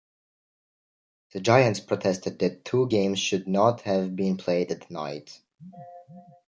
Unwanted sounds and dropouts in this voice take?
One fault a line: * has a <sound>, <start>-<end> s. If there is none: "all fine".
all fine